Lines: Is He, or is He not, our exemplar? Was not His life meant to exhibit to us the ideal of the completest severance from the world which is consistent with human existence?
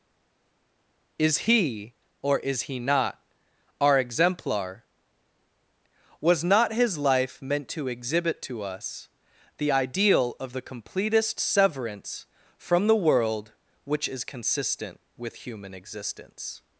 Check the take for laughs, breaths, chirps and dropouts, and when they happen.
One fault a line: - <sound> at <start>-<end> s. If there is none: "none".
none